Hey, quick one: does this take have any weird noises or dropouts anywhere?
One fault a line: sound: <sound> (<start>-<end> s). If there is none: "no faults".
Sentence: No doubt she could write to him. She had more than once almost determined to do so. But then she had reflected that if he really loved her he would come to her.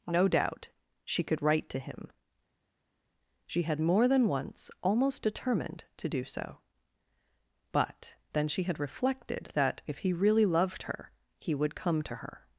no faults